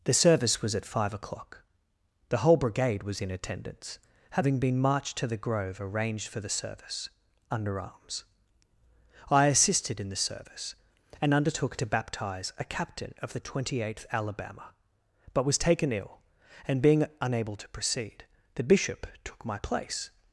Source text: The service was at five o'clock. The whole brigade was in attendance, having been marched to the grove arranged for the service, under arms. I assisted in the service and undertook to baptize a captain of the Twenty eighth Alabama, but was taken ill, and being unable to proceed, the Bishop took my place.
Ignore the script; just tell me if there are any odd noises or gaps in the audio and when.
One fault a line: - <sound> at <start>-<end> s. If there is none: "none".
none